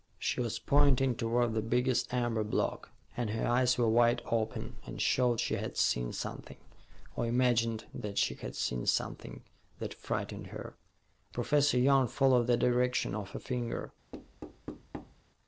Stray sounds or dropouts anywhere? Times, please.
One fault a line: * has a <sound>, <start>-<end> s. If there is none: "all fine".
* has a thud, 14.1-15.2 s